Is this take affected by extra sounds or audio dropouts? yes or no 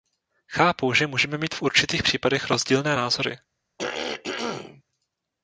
yes